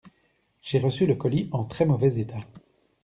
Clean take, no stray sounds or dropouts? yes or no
yes